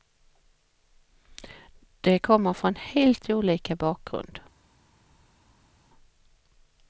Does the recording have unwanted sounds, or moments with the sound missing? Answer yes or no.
no